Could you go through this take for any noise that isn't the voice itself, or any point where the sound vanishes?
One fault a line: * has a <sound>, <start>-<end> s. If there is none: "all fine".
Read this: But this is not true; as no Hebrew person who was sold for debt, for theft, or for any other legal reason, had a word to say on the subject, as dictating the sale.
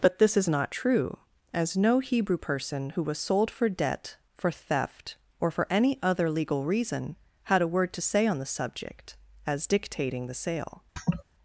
* has a laugh, 11.0-11.2 s